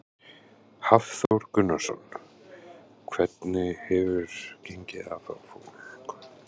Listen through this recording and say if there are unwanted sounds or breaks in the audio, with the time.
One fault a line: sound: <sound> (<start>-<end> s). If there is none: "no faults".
sound: dropout (1.3-1.3 s)